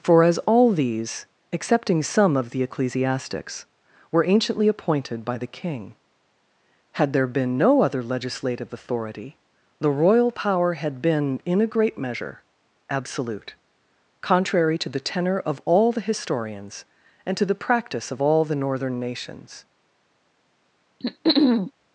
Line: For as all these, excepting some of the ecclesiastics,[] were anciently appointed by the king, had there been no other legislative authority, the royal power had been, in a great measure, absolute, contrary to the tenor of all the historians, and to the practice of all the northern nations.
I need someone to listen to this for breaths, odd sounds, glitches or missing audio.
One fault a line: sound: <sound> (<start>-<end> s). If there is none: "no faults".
sound: throat clearing (21.0-21.7 s)